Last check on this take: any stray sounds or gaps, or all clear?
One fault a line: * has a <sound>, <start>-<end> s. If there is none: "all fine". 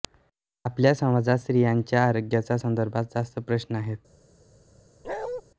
* has a bark, 5.0-5.4 s